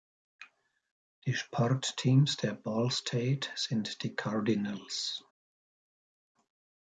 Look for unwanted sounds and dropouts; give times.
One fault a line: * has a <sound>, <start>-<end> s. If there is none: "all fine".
all fine